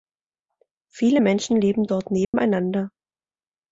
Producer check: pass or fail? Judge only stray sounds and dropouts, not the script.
fail